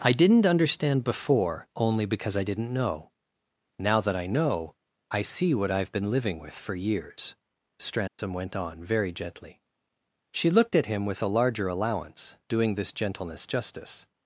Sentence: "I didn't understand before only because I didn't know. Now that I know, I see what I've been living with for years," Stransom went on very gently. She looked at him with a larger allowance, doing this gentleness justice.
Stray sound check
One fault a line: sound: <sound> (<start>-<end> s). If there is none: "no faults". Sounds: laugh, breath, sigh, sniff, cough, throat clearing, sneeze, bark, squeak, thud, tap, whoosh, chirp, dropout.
sound: dropout (8.1-8.2 s)